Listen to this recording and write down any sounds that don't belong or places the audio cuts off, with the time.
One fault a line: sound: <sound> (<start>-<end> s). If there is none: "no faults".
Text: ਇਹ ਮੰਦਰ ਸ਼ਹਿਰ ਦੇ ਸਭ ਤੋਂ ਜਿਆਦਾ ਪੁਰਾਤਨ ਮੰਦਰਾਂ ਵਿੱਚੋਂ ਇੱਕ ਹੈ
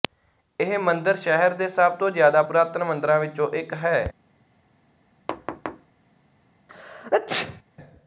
sound: thud (5.3-5.9 s)
sound: sneeze (6.7-7.6 s)